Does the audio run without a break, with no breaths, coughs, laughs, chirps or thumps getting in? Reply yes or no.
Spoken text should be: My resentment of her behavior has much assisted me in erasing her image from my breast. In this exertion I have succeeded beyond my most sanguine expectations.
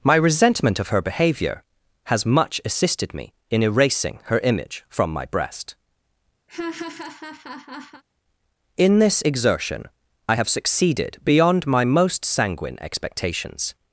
no